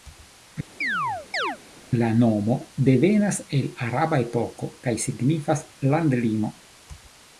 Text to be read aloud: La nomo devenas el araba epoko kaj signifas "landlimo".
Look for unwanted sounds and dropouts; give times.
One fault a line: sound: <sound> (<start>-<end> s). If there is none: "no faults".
sound: chirp (0.8-1.6 s)